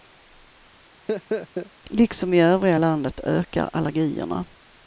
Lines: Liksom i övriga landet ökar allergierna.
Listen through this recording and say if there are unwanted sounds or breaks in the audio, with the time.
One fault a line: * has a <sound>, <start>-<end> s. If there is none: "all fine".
* has a laugh, 1.1-1.7 s